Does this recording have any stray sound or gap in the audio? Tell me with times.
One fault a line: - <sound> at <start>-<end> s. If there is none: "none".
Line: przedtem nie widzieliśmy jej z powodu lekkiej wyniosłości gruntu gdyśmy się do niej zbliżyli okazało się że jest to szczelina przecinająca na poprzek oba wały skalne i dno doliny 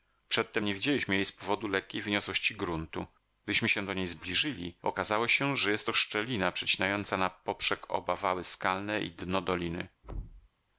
- thud at 10.0-10.5 s